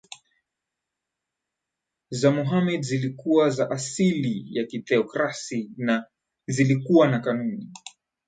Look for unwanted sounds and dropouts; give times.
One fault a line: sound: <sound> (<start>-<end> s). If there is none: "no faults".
no faults